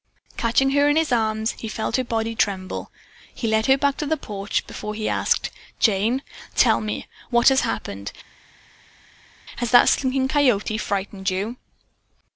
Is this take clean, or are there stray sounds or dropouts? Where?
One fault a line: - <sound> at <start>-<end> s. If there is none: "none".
none